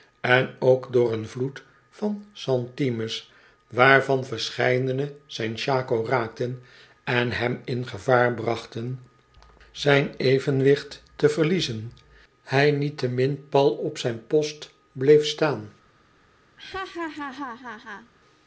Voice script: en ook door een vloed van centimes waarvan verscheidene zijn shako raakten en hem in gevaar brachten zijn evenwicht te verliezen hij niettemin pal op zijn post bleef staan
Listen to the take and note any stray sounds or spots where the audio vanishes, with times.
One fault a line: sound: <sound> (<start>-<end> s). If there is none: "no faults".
sound: laugh (16.6-18.1 s)